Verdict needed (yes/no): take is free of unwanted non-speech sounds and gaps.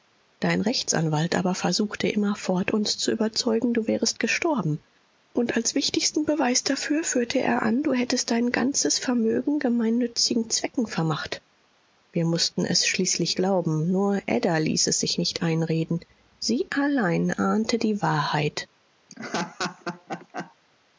no